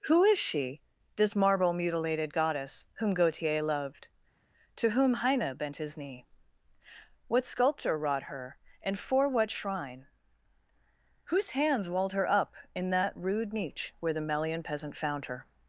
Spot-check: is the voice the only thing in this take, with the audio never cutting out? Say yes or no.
yes